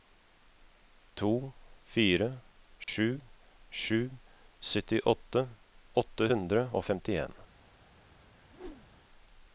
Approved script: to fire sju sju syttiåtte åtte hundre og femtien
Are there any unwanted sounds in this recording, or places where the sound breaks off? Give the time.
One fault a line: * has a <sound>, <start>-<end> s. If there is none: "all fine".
* has a dropout, 2.8-2.9 s
* has a whoosh, 8.5-9.0 s